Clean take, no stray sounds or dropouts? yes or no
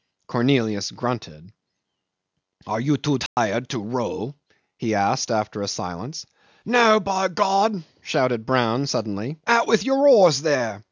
no